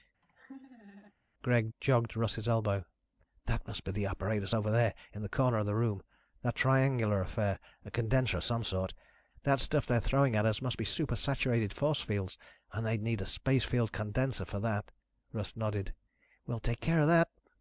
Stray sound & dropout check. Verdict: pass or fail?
fail